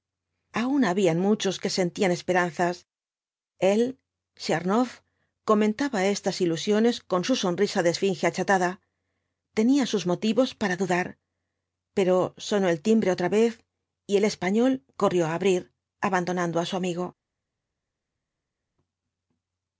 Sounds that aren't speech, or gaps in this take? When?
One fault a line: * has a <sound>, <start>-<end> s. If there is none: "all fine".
all fine